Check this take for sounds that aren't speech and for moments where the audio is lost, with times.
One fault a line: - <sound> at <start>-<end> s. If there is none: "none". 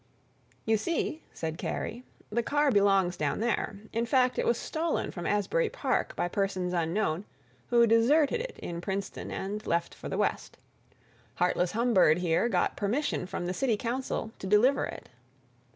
none